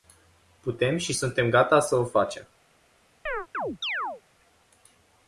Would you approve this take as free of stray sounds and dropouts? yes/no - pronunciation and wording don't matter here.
no